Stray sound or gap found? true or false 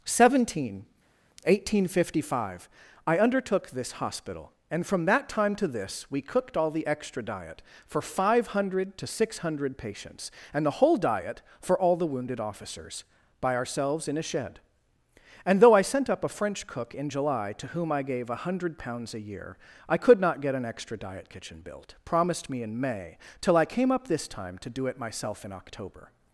false